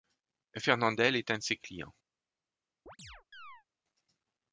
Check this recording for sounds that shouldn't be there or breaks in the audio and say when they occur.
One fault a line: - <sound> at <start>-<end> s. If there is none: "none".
- chirp at 2.9-3.6 s